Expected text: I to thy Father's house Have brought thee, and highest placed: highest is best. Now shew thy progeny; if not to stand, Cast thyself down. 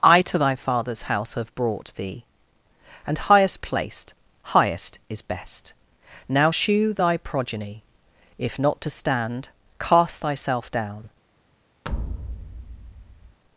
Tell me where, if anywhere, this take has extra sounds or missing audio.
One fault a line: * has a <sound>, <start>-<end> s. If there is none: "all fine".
* has a thud, 11.8-13.4 s